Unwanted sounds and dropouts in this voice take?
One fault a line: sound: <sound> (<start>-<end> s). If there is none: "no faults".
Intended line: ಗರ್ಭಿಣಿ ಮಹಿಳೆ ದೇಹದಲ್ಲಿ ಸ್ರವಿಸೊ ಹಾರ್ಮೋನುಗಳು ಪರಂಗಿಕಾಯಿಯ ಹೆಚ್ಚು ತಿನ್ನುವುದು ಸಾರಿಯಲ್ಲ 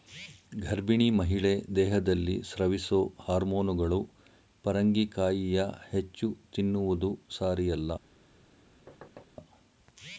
sound: thud (8.9-9.3 s)